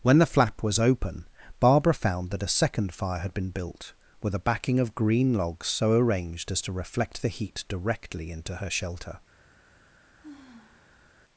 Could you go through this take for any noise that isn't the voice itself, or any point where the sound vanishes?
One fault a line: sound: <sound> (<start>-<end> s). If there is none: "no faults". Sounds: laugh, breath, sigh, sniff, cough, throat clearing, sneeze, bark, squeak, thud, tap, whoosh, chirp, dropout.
sound: sigh (10.2-11.2 s)